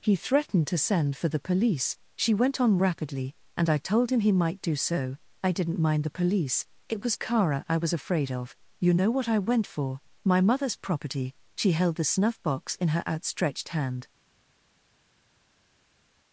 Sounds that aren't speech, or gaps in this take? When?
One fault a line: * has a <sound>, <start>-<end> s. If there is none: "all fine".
all fine